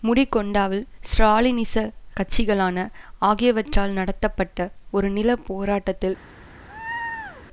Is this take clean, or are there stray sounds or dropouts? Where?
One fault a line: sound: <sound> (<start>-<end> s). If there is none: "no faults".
sound: laugh (6.7-7.5 s)